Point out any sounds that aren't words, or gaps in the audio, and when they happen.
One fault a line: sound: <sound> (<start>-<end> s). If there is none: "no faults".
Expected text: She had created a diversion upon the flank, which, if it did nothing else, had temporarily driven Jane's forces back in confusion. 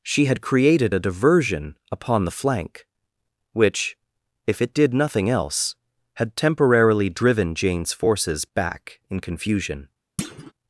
sound: thud (10.2-10.5 s)